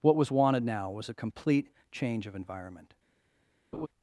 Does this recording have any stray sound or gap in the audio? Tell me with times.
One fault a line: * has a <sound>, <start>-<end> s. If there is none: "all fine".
* has a laugh, 3.7-3.9 s